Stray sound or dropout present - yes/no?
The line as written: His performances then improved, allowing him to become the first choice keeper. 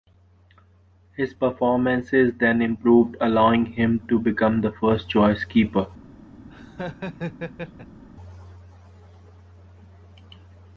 yes